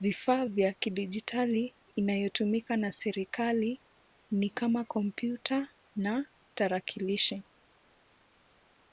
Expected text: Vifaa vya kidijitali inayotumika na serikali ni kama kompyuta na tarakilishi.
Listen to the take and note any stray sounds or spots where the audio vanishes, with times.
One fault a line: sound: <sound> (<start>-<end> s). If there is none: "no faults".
no faults